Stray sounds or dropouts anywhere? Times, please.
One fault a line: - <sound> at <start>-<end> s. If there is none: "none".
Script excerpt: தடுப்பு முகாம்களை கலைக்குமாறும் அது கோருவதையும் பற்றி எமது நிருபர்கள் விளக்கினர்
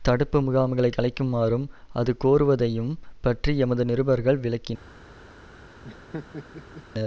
- laugh at 5.8-6.8 s